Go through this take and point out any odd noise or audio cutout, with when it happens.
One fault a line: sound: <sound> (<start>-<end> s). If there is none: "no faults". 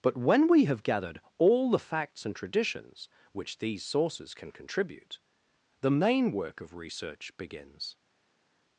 no faults